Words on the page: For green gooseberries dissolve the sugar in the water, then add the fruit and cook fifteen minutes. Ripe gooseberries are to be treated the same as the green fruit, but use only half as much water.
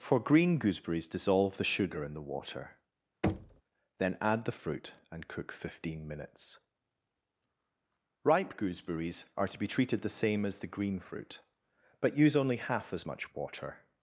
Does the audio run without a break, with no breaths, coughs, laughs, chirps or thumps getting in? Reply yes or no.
no